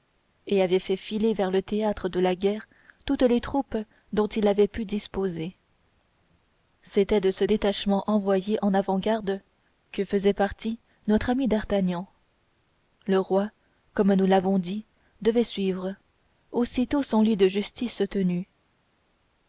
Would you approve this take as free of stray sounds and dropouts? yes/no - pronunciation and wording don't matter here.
yes